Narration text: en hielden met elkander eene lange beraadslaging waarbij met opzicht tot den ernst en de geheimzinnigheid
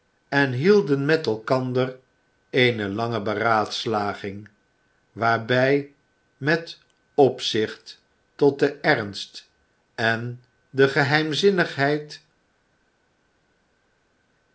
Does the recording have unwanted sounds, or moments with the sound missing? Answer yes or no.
no